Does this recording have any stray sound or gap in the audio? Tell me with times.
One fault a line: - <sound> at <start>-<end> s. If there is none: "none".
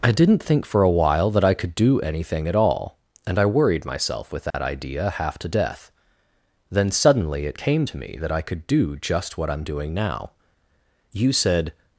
- dropout at 4.5-4.5 s